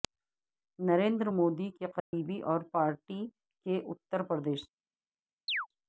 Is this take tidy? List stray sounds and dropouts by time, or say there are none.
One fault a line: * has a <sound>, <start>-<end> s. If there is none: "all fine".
* has a dropout, 2.0-2.1 s
* has a chirp, 5.5-5.7 s